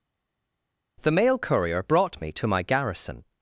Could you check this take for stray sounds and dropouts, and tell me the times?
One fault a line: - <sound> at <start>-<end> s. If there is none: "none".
none